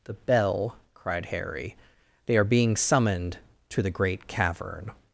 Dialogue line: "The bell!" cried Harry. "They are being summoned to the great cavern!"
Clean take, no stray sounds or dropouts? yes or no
yes